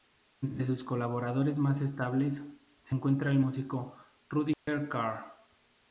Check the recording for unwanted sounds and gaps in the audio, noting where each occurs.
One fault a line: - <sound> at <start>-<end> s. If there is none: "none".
- dropout at 4.5-4.7 s